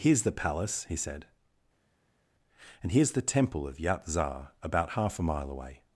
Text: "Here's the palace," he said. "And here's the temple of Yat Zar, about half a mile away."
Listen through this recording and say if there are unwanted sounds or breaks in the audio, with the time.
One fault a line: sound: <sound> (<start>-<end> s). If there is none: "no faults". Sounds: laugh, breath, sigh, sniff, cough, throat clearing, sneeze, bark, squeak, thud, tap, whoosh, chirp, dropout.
no faults